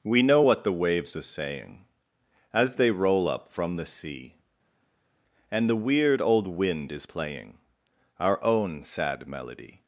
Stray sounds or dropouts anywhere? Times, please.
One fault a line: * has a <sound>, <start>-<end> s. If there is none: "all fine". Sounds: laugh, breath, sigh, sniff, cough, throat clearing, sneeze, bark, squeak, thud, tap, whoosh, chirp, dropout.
all fine